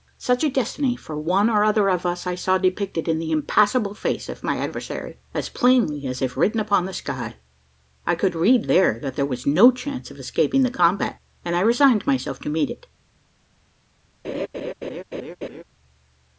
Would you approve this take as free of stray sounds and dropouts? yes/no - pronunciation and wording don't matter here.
no